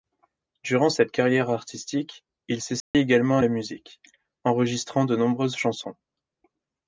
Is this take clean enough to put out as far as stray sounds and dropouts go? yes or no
no